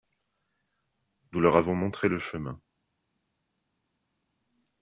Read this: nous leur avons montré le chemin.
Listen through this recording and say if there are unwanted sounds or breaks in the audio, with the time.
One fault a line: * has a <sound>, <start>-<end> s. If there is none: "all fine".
all fine